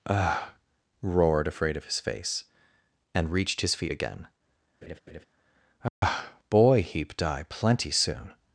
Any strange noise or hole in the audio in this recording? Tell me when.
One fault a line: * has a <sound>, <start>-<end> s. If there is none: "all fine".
* has a laugh, 4.8-5.3 s
* has a dropout, 5.9-6.0 s